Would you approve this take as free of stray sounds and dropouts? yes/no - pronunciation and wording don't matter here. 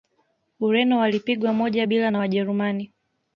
yes